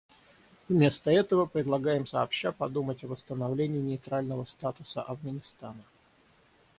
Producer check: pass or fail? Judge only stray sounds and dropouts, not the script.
pass